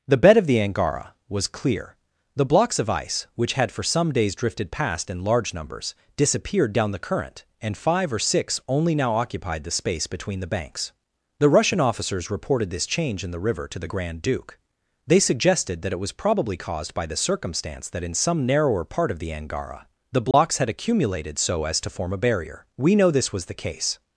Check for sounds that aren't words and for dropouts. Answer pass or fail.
fail